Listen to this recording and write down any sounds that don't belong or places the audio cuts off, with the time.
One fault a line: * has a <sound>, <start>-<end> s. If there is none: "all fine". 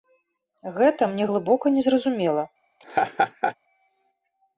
* has a laugh, 2.8-3.6 s